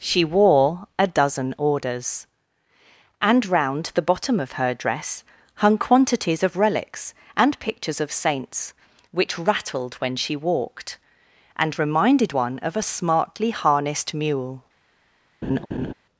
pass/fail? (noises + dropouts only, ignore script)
fail